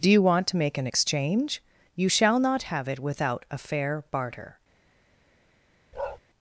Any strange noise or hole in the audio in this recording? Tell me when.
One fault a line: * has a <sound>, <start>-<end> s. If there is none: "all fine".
* has a bark, 5.9-6.2 s